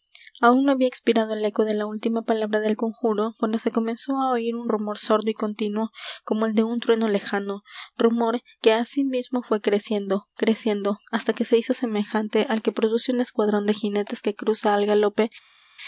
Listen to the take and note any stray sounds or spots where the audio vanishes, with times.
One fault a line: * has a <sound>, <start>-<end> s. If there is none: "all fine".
all fine